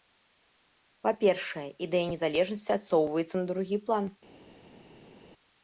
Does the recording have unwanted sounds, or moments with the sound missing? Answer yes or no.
no